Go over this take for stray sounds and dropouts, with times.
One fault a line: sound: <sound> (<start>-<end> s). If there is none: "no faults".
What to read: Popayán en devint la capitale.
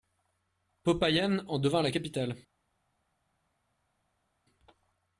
no faults